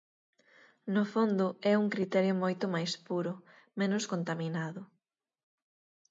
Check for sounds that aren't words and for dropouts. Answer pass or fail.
pass